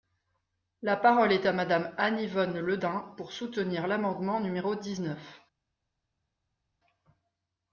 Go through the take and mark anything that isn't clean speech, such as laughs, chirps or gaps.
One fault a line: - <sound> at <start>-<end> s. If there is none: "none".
none